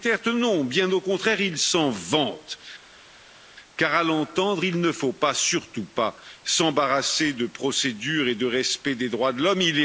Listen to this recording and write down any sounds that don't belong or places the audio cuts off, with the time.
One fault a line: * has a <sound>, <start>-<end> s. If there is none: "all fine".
all fine